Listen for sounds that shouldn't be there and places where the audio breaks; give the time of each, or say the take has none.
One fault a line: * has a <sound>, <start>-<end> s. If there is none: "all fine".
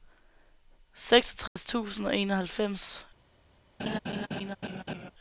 * has a dropout, 1.5-1.6 s
* has a laugh, 3.8-5.1 s